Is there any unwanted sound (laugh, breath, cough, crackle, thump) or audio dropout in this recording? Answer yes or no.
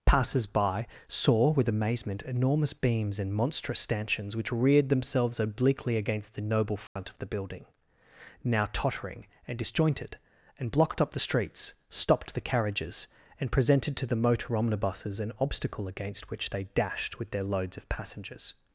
yes